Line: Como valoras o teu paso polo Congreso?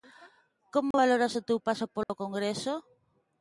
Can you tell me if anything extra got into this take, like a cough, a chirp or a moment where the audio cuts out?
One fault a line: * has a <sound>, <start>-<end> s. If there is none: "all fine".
* has a dropout, 0.9-0.9 s
* has a dropout, 2.0-2.1 s